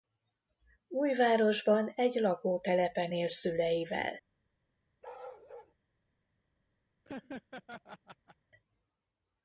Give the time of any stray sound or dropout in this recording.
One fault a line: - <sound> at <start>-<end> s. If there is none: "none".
- bark at 5.0-5.7 s
- laugh at 7.0-8.4 s